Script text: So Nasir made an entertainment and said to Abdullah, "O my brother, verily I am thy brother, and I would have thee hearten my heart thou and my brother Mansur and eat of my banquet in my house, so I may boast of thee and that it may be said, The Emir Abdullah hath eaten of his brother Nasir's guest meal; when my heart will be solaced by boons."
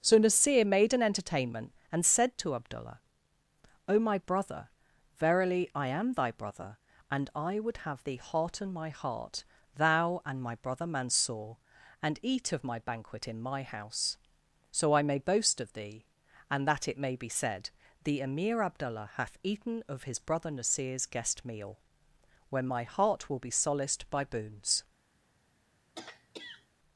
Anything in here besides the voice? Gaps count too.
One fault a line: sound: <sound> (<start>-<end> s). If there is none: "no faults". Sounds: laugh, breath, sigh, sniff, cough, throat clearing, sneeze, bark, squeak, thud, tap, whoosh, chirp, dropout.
sound: throat clearing (25.9-26.7 s)